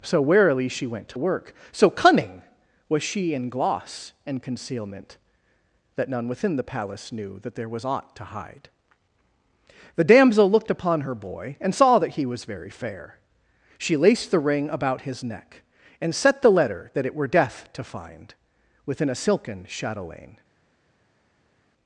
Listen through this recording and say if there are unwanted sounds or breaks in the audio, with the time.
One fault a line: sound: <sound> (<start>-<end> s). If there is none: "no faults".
no faults